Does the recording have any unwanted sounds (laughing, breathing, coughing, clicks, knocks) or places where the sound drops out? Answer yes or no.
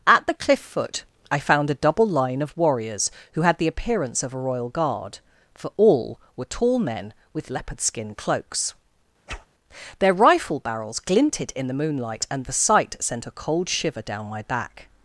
yes